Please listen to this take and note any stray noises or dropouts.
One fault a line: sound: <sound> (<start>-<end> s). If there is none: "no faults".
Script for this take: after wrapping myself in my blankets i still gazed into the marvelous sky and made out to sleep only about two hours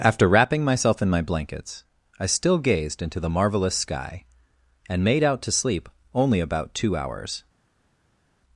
no faults